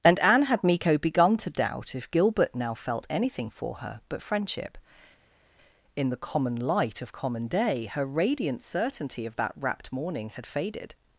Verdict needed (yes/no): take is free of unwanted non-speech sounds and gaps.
yes